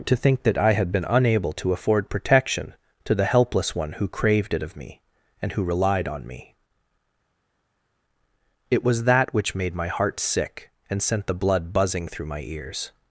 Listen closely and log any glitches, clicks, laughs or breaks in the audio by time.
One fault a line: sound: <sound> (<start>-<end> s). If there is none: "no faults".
no faults